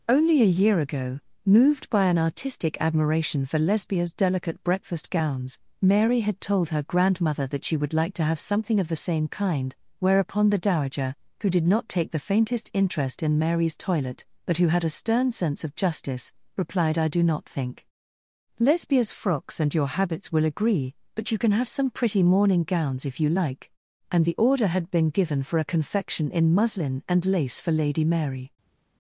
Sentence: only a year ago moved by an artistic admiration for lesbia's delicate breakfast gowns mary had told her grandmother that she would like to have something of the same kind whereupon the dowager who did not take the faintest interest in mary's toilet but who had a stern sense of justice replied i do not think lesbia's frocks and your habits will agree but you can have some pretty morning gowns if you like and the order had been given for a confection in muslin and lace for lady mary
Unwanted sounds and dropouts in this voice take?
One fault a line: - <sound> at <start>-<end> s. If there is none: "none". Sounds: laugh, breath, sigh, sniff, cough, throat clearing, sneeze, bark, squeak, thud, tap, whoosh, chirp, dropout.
none